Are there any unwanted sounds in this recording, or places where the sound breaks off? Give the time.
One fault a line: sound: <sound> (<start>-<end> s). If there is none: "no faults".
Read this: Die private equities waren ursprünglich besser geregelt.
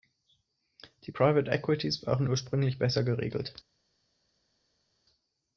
no faults